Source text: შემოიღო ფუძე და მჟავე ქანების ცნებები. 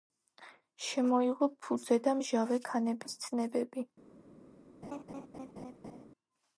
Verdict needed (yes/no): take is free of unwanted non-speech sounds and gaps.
no